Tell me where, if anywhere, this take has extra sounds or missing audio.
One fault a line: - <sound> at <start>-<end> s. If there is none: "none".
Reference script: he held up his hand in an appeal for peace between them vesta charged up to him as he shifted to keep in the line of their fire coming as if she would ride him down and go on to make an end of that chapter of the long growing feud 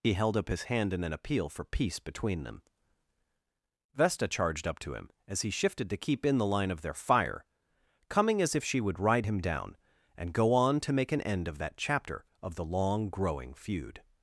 none